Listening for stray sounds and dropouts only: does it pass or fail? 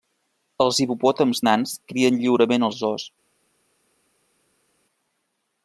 pass